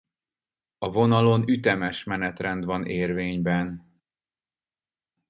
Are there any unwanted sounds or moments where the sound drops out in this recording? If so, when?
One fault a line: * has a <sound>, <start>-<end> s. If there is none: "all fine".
all fine